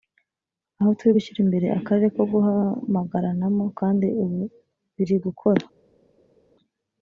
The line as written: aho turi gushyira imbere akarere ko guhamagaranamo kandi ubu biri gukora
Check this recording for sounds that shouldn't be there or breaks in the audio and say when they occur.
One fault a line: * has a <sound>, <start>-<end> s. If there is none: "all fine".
all fine